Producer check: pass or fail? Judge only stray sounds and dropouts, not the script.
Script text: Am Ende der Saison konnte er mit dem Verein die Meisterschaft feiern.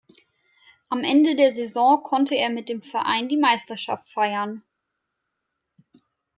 pass